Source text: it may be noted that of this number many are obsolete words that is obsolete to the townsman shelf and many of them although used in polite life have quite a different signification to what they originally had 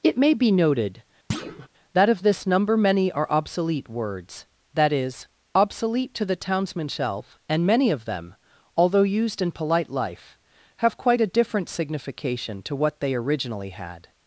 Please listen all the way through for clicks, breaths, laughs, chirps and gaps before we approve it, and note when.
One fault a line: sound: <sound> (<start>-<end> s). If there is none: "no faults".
sound: thud (1.3-1.7 s)